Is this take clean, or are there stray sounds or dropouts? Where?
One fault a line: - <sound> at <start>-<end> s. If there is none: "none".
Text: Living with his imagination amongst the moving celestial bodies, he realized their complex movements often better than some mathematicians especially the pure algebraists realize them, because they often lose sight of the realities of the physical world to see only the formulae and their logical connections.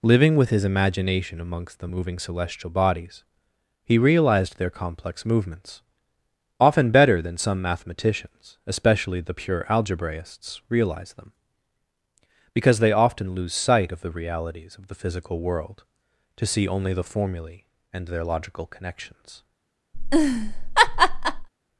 - laugh at 19.9-21.5 s